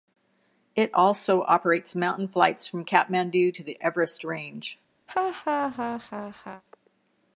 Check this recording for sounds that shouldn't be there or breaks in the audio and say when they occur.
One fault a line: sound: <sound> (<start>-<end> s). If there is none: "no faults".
sound: laugh (5.1-6.6 s)